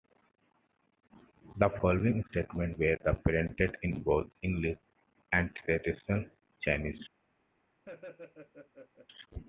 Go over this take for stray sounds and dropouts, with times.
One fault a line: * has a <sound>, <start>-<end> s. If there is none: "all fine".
* has a laugh, 7.8-9.1 s